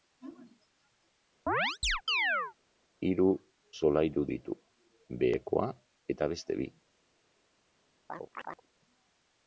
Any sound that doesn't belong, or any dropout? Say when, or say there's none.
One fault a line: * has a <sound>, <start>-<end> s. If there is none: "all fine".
* has a chirp, 1.5-2.5 s
* has a chirp, 8.1-8.7 s